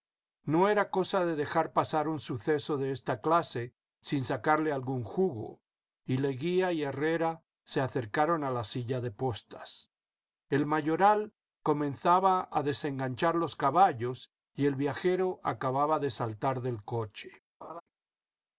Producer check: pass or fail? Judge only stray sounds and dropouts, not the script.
fail